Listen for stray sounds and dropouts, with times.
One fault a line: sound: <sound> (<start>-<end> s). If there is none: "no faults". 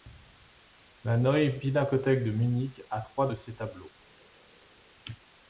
no faults